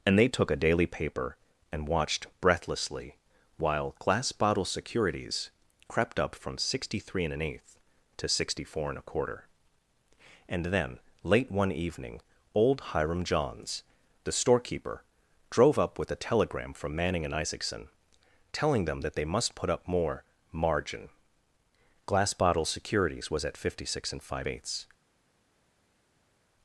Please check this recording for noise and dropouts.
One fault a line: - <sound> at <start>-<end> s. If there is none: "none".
none